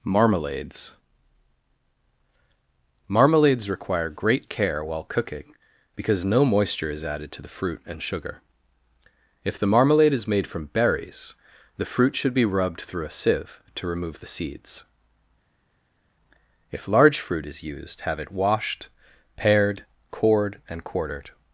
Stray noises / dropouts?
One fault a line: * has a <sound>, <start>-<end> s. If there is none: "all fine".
all fine